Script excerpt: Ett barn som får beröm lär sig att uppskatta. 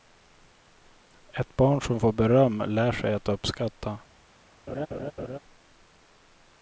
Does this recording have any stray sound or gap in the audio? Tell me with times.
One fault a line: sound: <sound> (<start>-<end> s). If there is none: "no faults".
sound: laugh (4.7-5.4 s)